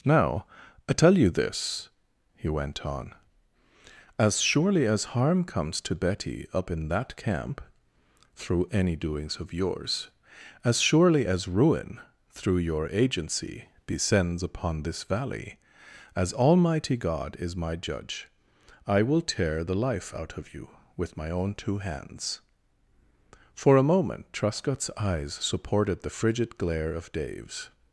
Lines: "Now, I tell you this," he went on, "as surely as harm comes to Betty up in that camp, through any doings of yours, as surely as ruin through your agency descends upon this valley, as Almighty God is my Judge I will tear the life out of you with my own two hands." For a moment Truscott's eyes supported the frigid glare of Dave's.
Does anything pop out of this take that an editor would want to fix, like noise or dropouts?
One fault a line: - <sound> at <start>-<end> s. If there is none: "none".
none